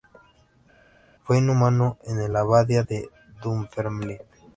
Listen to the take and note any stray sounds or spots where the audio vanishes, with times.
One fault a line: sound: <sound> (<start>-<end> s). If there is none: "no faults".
no faults